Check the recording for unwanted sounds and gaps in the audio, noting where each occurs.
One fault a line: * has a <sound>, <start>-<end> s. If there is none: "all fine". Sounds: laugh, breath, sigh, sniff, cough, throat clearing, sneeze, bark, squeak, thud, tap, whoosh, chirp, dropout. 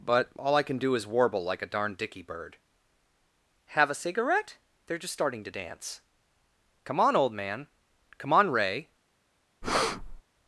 * has a breath, 9.6-10.2 s